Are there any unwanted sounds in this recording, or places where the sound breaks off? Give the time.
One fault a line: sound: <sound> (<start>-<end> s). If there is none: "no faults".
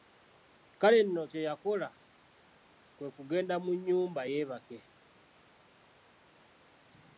no faults